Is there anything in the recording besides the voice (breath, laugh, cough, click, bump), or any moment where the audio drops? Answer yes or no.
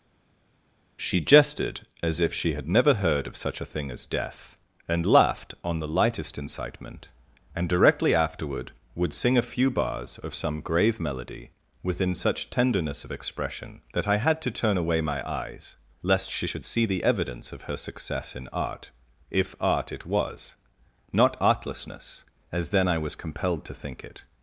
no